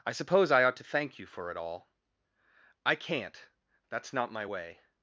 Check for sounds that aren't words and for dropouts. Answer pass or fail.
pass